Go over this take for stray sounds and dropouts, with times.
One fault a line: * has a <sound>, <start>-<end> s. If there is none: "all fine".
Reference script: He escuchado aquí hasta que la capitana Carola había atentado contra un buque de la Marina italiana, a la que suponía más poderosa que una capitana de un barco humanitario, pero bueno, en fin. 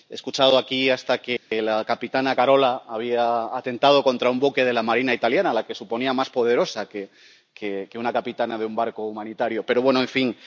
* has a dropout, 1.4-1.5 s